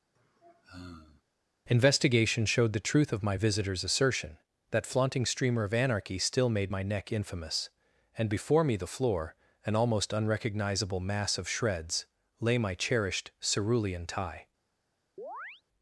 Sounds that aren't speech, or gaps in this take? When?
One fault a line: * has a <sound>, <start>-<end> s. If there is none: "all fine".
* has a sigh, 0.2-1.2 s
* has a chirp, 15.2-15.6 s